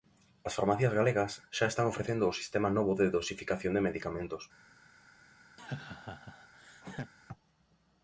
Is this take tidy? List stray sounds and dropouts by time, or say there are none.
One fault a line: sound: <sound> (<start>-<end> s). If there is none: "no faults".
sound: laugh (5.6-7.1 s)